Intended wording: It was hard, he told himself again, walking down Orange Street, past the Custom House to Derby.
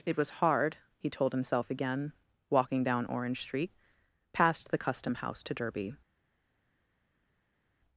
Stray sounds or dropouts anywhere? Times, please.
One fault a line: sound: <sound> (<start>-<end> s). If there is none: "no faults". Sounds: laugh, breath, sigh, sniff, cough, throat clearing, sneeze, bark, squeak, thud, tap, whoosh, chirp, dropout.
no faults